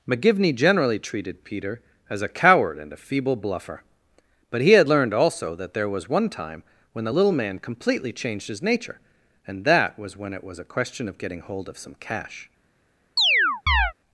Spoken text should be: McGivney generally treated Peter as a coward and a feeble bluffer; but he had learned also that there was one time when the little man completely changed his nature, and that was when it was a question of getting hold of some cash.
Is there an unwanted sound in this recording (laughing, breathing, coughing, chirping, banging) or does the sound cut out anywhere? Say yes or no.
yes